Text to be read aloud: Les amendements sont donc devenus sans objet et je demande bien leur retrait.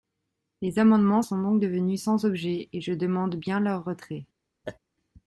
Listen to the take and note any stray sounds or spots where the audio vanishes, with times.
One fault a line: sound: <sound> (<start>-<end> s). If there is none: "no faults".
sound: laugh (4.6-4.8 s)